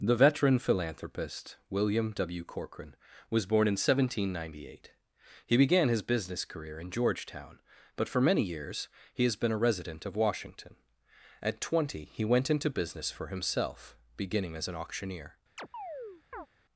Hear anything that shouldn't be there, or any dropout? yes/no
yes